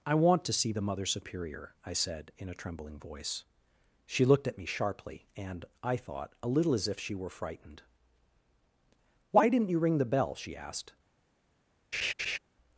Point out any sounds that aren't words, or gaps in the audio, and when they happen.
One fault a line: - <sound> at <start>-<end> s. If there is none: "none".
- laugh at 11.9-12.4 s